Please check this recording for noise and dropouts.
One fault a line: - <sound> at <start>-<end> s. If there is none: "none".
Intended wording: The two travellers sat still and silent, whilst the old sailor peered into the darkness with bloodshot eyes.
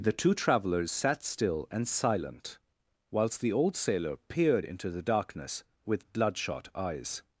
none